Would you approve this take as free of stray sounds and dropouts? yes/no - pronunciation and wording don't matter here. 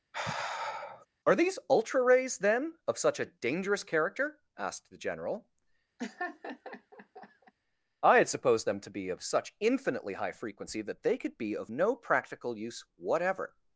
no